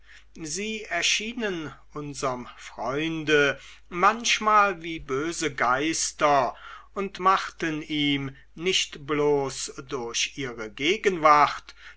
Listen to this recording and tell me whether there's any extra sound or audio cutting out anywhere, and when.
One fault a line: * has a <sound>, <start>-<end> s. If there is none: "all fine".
all fine